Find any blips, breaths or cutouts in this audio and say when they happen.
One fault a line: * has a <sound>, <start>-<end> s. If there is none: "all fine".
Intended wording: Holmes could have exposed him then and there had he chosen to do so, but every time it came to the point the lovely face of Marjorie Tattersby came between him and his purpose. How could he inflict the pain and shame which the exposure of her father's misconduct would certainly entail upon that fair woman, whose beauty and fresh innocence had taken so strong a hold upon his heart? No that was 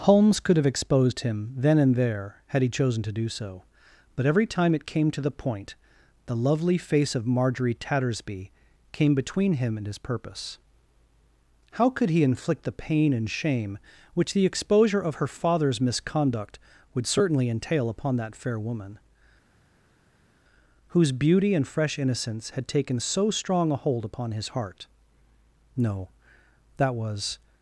all fine